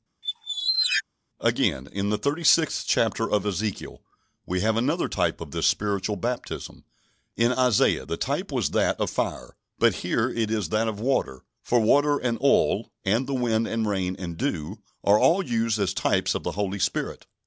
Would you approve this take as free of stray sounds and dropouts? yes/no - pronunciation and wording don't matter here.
no